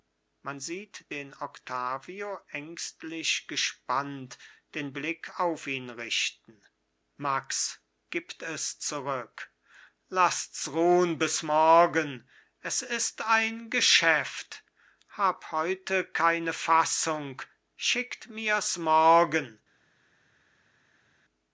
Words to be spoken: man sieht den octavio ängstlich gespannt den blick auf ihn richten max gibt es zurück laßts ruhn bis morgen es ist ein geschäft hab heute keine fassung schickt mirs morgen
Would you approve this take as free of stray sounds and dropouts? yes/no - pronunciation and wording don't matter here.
yes